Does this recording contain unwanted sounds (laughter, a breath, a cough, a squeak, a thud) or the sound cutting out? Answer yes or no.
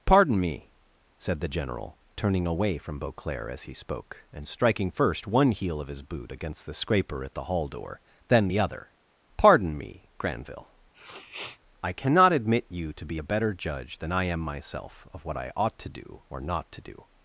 yes